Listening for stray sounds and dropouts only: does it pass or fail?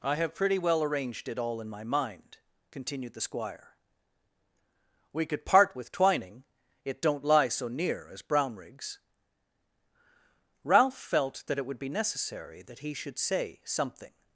pass